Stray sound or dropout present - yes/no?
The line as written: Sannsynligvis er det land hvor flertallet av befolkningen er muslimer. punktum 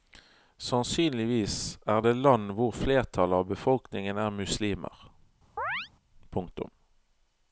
yes